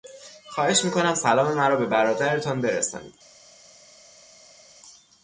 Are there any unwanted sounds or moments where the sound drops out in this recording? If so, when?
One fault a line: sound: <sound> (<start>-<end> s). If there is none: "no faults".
no faults